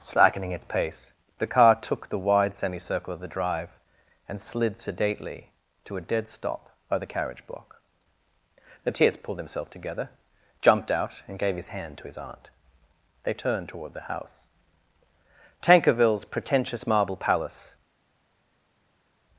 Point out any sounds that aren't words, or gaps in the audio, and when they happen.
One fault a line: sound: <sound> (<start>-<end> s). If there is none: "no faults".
no faults